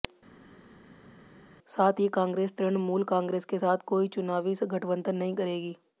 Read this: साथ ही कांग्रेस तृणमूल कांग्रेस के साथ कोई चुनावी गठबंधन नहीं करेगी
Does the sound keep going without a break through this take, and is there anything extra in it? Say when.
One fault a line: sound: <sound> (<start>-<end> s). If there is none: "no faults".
no faults